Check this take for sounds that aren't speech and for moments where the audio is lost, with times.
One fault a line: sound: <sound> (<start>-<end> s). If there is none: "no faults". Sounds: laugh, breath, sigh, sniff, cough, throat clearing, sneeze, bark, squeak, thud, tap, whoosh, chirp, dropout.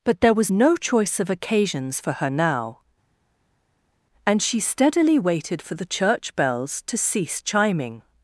no faults